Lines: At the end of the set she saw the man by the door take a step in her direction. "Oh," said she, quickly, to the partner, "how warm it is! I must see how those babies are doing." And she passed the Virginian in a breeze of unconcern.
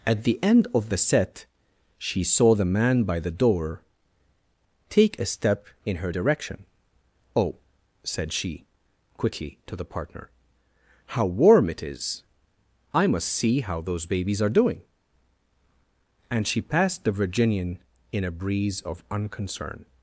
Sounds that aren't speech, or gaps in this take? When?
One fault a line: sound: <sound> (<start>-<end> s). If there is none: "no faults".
no faults